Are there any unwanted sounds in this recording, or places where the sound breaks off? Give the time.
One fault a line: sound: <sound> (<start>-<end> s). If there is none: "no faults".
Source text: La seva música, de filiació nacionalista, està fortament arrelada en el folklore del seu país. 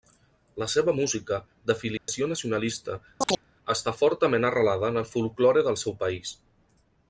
sound: dropout (2.0-2.1 s)
sound: chirp (3.2-3.4 s)